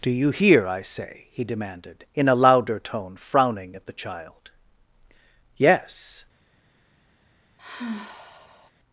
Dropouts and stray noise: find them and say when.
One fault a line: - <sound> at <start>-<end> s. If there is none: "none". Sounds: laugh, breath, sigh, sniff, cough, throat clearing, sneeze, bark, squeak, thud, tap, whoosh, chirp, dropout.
- sigh at 7.6-8.7 s